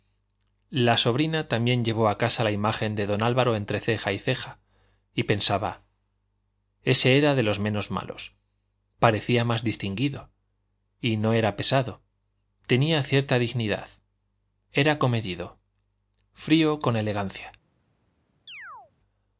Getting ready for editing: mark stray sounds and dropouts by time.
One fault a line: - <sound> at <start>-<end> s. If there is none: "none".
- chirp at 18.5-18.9 s